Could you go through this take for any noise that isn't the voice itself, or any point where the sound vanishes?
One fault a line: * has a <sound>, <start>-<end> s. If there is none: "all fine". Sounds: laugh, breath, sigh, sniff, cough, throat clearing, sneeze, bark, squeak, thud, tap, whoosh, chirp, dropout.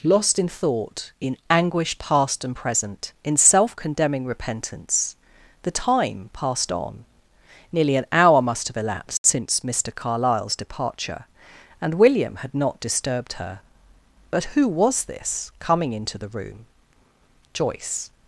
all fine